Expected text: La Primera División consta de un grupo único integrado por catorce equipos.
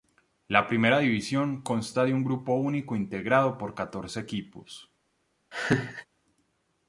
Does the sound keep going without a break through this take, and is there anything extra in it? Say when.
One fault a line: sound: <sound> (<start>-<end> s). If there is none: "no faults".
sound: laugh (5.5-6.1 s)